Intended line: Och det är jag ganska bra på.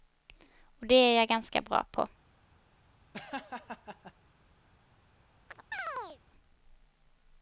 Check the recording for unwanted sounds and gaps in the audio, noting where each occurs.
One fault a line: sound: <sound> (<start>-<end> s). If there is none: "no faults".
sound: laugh (3.1-4.1 s)
sound: chirp (5.5-6.2 s)